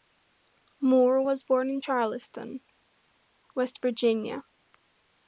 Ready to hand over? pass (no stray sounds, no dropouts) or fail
pass